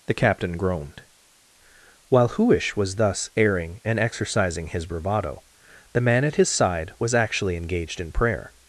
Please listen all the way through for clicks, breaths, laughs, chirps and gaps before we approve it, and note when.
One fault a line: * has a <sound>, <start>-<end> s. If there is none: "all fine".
all fine